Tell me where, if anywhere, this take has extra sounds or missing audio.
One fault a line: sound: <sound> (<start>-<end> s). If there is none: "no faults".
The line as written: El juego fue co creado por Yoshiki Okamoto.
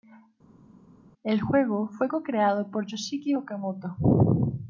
no faults